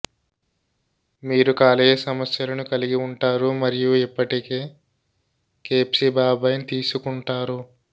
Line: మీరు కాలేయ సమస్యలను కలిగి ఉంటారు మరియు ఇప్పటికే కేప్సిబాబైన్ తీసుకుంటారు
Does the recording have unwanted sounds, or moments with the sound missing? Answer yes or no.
no